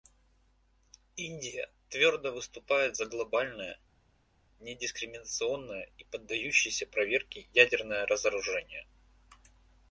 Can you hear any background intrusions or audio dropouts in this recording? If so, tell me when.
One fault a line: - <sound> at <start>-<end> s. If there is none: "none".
none